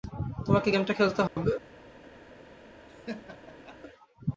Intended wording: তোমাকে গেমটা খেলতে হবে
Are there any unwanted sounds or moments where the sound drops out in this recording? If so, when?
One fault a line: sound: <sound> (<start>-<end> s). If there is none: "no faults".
sound: dropout (1.3-1.4 s)
sound: laugh (2.9-3.8 s)